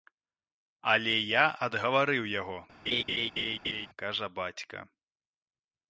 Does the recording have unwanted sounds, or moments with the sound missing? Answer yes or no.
yes